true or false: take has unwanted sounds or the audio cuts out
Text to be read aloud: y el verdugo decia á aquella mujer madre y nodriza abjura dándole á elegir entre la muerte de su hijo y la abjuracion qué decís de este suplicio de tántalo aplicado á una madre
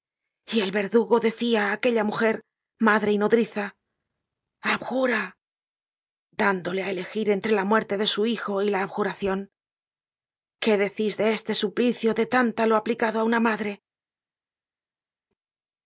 false